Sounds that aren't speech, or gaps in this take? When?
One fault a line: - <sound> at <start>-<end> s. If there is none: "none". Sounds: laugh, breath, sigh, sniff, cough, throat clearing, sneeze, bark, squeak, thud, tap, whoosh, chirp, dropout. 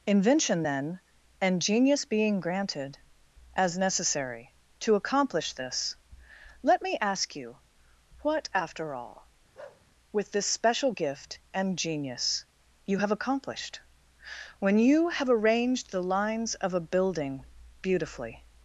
- bark at 9.5-9.8 s